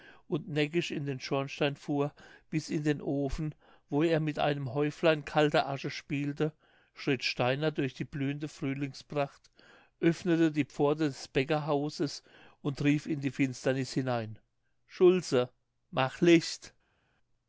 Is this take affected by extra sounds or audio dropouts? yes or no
no